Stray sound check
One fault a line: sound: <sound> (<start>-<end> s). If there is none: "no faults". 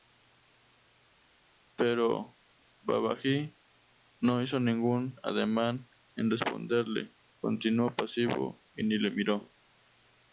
no faults